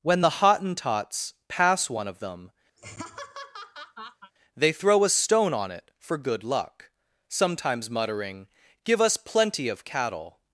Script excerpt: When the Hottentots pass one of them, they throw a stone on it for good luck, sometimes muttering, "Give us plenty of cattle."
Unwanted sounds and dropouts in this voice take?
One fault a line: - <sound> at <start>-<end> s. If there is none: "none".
- laugh at 2.8-4.3 s